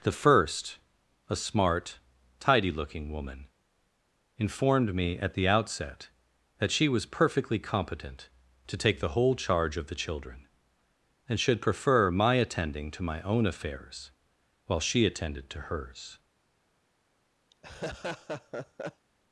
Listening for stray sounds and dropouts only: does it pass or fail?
fail